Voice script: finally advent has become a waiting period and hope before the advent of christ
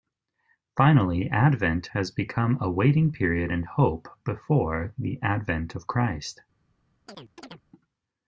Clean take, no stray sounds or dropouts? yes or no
no